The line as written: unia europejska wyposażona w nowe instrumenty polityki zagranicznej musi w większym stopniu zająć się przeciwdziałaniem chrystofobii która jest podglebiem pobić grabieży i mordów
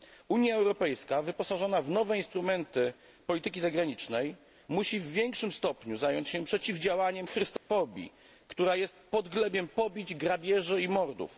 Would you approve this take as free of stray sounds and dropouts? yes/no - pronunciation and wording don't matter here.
no